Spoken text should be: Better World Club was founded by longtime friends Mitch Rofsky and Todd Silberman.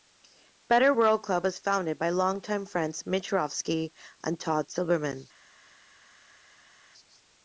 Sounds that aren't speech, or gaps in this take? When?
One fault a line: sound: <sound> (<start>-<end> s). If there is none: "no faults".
no faults